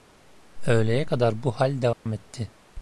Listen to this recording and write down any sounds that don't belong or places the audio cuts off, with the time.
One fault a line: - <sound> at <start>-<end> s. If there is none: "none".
- dropout at 1.9-2.1 s